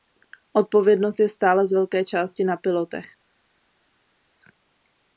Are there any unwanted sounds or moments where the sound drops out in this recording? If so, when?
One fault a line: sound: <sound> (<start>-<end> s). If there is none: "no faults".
no faults